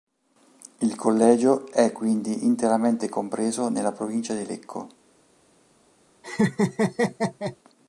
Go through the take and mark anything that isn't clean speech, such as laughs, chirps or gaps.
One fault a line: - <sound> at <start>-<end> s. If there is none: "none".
- laugh at 6.2-7.6 s